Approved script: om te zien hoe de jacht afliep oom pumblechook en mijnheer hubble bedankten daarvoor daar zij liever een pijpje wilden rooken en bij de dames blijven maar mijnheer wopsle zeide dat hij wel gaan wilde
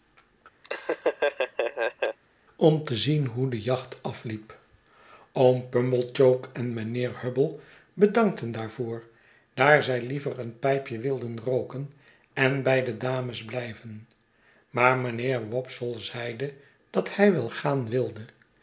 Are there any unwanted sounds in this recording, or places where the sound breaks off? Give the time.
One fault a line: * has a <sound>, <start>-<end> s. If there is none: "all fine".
* has a laugh, 0.6-2.2 s